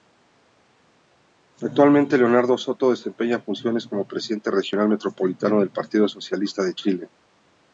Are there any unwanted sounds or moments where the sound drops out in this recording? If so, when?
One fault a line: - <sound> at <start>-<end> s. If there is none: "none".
none